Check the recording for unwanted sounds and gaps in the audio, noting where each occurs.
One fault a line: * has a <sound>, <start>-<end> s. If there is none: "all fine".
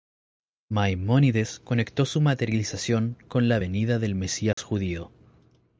* has a dropout, 4.5-4.6 s